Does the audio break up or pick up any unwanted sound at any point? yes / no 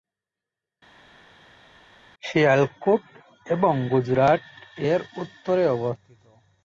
no